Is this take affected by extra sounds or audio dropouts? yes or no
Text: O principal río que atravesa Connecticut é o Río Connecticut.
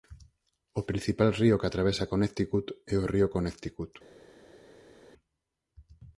no